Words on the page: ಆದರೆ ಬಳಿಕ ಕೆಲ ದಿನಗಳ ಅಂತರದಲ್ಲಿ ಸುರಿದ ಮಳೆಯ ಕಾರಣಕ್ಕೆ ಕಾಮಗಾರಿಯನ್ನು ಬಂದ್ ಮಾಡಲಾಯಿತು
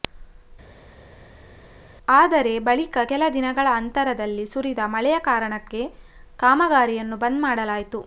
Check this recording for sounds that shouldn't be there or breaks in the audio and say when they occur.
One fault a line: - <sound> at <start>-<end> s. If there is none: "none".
none